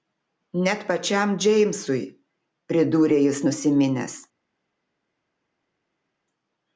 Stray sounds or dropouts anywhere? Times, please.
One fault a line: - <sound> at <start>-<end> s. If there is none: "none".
none